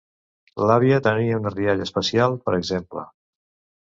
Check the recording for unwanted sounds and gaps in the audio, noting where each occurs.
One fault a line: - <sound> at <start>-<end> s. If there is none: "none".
none